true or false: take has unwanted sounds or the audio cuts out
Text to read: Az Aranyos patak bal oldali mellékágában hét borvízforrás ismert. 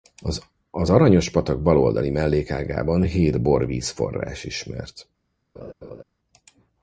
true